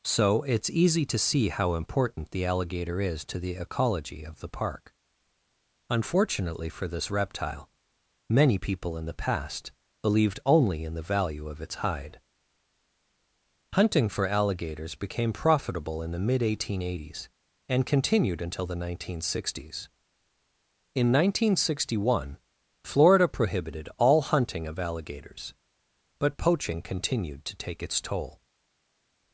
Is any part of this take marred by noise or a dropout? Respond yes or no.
no